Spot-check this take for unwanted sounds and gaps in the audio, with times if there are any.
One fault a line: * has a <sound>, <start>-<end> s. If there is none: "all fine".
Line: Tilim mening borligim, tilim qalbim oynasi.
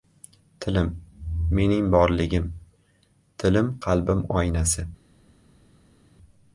all fine